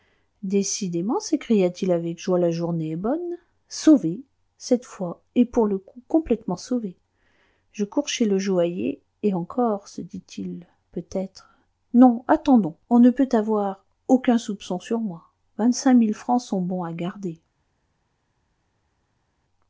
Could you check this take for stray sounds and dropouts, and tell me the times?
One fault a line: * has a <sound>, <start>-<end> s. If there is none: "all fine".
all fine